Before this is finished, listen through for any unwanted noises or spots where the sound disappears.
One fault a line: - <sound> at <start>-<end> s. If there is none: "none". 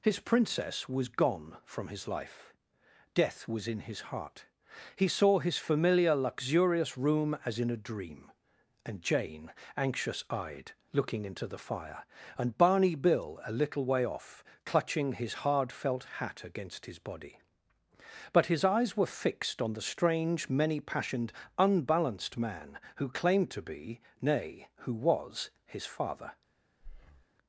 - breath at 26.8-27.3 s